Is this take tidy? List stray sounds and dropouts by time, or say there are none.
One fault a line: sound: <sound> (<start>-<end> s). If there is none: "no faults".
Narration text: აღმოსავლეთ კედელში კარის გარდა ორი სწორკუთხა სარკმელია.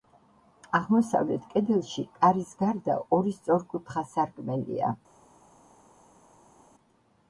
no faults